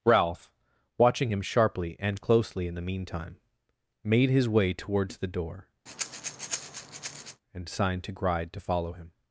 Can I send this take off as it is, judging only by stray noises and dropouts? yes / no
no